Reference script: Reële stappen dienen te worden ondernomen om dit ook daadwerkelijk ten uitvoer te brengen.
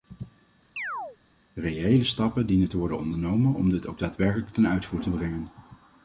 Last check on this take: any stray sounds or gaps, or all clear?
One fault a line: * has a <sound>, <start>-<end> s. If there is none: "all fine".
* has a chirp, 0.8-1.2 s